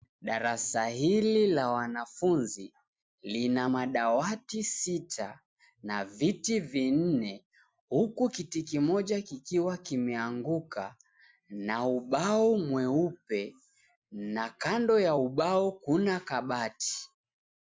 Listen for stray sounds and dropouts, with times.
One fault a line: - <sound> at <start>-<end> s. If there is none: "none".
none